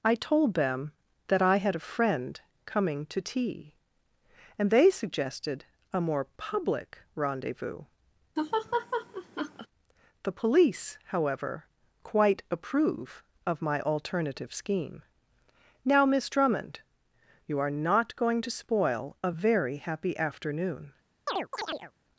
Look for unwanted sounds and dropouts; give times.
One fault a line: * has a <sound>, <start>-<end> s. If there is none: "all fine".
* has a laugh, 8.4-9.7 s
* has a chirp, 21.3-21.9 s